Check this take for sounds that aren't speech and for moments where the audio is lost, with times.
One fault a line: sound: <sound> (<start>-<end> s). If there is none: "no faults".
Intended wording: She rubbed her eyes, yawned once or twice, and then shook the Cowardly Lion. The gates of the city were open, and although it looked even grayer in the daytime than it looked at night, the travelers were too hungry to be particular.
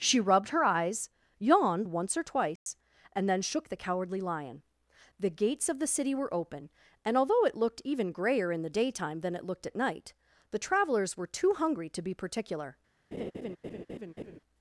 sound: dropout (2.6-2.7 s)
sound: laugh (13.1-14.4 s)